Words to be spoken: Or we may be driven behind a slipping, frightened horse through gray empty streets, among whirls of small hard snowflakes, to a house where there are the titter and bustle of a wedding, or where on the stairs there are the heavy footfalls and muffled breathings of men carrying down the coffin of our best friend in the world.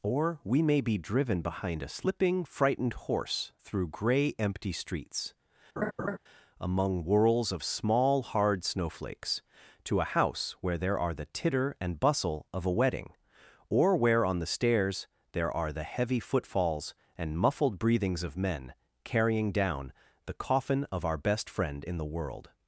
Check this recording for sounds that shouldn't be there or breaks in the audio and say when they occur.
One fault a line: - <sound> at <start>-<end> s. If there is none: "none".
- laugh at 5.8-6.2 s